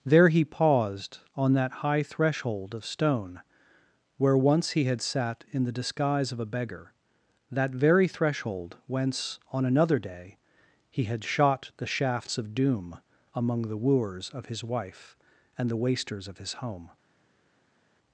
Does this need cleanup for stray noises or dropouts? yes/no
no